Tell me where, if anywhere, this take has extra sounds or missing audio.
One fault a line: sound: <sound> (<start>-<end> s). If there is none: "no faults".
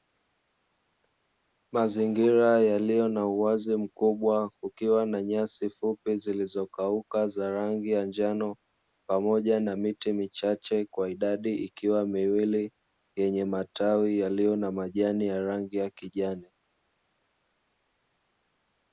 no faults